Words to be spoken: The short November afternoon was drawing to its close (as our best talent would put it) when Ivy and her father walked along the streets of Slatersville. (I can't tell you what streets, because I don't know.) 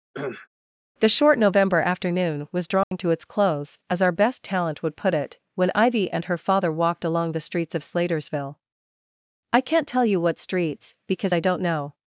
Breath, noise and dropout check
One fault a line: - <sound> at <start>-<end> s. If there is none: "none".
- cough at 0.1-0.5 s
- dropout at 2.8-2.9 s